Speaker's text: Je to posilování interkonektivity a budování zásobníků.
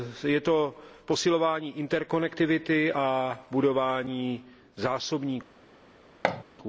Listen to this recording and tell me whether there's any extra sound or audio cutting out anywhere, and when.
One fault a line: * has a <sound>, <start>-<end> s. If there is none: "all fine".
* has a thud, 6.2-6.4 s